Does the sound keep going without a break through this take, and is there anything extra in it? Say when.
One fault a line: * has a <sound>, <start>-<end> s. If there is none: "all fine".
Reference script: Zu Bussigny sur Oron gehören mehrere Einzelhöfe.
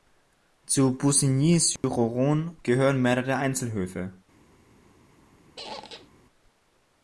* has a dropout, 1.8-1.8 s
* has a squeak, 5.6-6.1 s